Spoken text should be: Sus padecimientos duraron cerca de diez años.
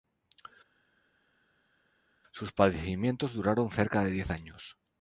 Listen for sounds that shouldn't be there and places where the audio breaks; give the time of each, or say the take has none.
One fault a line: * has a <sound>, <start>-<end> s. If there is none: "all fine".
all fine